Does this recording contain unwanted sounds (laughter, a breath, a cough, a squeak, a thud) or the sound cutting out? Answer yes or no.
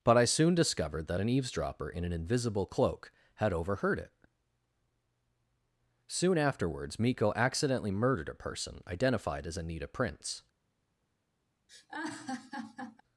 yes